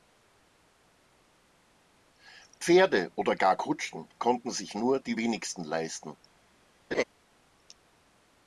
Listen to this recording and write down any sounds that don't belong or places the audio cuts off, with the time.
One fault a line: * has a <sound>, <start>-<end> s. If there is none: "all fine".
* has a laugh, 6.9-7.0 s